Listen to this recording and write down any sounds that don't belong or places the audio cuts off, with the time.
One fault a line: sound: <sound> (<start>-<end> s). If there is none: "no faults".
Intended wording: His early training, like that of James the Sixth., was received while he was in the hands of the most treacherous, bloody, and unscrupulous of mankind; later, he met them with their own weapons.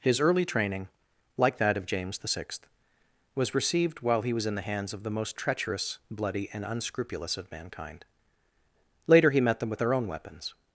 no faults